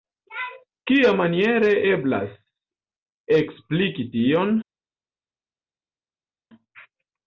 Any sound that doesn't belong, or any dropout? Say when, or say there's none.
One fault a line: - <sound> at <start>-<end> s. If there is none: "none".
none